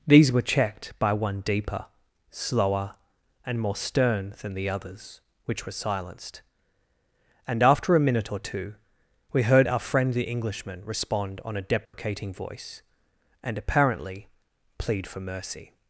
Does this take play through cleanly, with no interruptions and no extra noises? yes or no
no